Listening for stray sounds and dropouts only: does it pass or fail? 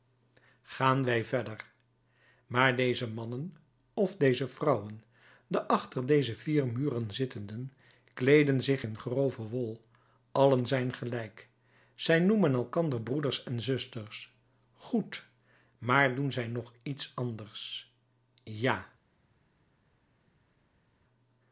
pass